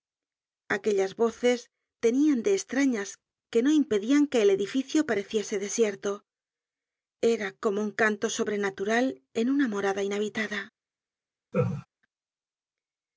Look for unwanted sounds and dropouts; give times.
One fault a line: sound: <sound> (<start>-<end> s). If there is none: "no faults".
sound: laugh (11.5-11.9 s)